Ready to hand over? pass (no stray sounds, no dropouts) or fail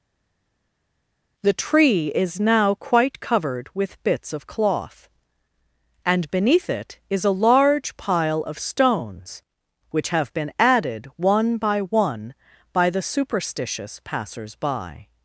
pass